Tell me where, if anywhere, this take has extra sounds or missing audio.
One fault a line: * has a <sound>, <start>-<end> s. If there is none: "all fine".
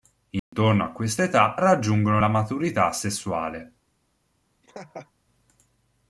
* has a dropout, 0.4-0.5 s
* has a laugh, 4.6-5.1 s